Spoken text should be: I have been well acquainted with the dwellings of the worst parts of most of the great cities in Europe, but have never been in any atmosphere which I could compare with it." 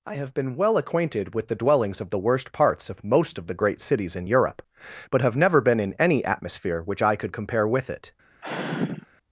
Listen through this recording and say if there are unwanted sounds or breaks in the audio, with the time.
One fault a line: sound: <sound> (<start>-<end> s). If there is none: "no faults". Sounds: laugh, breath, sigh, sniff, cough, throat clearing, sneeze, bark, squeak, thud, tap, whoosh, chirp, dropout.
sound: sigh (8.4-9.1 s)